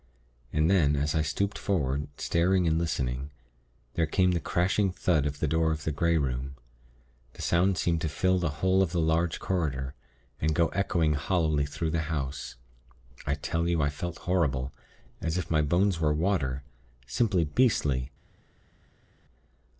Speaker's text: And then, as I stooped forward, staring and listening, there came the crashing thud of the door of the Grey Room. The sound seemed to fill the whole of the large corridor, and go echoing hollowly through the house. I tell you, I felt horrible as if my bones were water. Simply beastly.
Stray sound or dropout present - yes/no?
no